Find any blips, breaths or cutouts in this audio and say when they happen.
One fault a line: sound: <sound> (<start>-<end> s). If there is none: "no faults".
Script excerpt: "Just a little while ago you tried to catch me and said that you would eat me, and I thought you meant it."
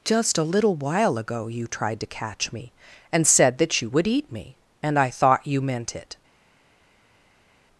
no faults